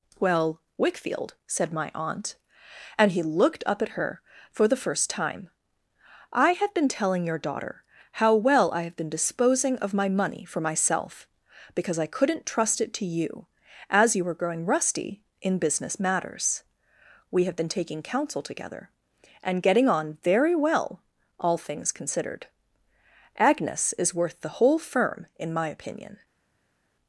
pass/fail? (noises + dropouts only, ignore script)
pass